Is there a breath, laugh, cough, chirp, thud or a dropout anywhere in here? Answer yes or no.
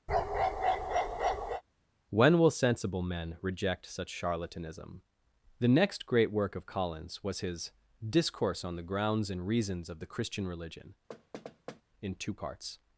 yes